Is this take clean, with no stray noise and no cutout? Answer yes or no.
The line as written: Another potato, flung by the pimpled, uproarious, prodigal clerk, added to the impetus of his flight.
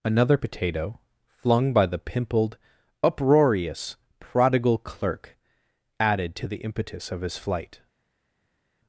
yes